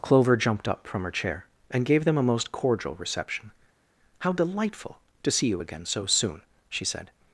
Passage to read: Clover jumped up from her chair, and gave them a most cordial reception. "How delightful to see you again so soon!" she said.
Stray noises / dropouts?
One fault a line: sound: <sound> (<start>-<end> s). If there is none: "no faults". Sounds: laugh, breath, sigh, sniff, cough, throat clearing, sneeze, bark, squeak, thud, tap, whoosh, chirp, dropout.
no faults